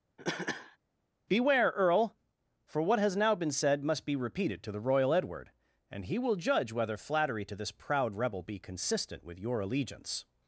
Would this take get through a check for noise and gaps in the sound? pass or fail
fail